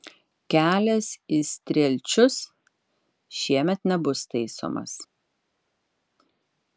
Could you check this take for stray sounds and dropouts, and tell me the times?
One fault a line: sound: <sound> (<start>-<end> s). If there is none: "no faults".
no faults